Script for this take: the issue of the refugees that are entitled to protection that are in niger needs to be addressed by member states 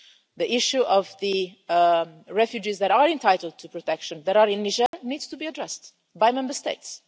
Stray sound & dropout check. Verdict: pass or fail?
fail